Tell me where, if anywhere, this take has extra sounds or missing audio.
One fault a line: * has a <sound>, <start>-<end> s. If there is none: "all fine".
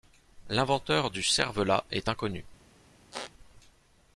* has a squeak, 3.1-3.3 s